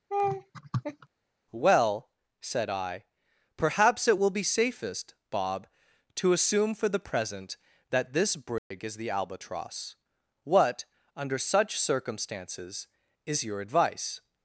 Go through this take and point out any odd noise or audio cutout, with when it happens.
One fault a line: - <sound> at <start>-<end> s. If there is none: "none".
- laugh at 0.1-1.1 s
- dropout at 8.6-8.7 s